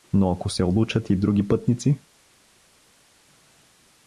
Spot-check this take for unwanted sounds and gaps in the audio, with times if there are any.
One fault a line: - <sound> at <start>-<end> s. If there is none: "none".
none